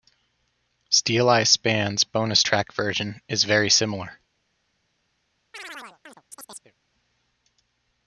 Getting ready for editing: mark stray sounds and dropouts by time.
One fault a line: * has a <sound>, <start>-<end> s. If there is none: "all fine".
* has a chirp, 5.5-6.7 s